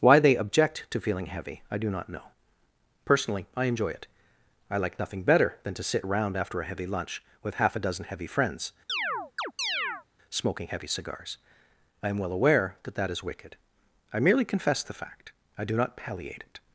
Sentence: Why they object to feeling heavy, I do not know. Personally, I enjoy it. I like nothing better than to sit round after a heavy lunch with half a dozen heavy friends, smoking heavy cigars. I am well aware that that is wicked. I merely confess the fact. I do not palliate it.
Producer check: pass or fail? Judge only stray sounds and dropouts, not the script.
fail